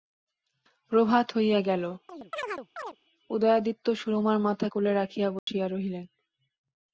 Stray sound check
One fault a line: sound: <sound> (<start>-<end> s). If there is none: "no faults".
sound: chirp (2.1-3.0 s)
sound: dropout (5.4-5.5 s)